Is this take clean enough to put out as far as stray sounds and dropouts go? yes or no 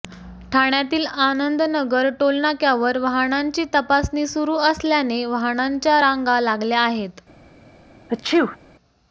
no